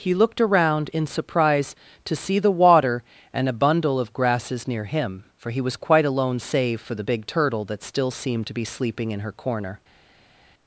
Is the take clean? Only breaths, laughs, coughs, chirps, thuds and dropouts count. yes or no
yes